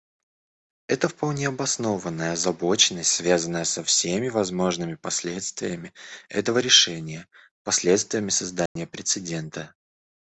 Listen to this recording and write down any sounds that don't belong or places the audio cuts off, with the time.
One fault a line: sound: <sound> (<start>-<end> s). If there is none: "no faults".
sound: dropout (8.7-8.8 s)